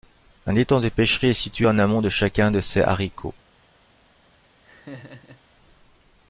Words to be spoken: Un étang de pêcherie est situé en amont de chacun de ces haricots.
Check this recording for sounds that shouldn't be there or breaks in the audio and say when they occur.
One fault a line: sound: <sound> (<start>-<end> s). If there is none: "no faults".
sound: laugh (4.6-5.4 s)